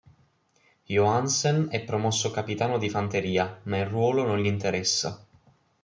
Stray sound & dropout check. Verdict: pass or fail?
pass